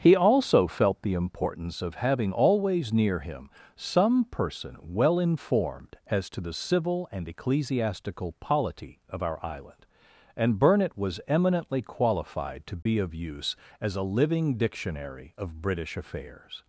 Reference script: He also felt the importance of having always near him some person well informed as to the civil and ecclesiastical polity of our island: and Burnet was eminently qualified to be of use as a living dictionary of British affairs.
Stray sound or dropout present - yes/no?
yes